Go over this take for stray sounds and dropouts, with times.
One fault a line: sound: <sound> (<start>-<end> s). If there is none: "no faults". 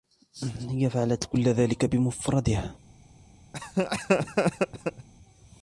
sound: laugh (3.5-5.1 s)